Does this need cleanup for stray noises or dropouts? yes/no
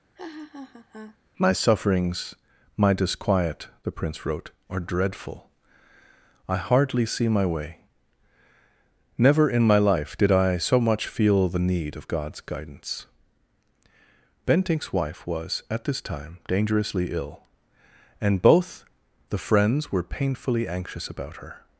yes